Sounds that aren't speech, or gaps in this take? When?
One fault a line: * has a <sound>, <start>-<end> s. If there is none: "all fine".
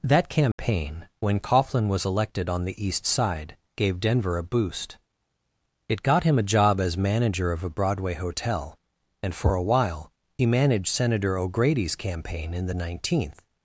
* has a dropout, 0.5-0.6 s